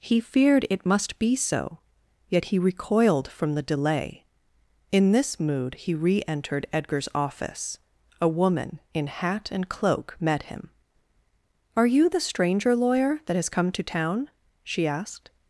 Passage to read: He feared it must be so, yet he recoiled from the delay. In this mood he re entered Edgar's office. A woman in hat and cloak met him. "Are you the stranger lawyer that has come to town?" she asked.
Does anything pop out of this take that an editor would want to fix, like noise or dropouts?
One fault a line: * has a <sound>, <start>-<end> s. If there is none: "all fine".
all fine